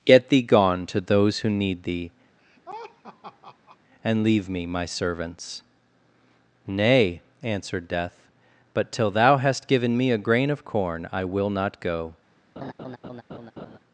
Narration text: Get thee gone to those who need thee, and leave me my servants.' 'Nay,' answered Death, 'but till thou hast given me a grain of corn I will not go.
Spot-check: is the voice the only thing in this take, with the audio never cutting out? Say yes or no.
no